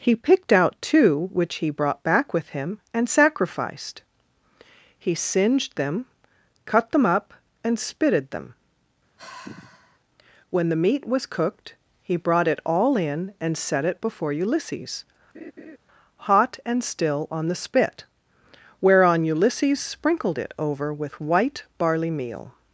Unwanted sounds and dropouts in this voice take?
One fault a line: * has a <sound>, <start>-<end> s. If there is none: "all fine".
* has a sigh, 9.2-10.0 s
* has a laugh, 15.3-15.8 s